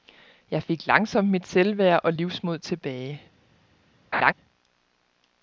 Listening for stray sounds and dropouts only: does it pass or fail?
fail